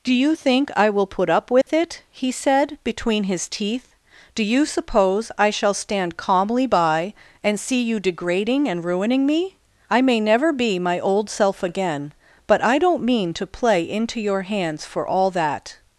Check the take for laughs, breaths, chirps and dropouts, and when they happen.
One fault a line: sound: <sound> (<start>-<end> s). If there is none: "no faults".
sound: dropout (1.6-1.7 s)